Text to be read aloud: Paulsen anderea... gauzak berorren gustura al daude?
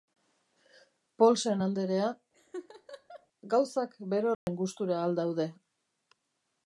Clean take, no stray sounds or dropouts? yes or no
no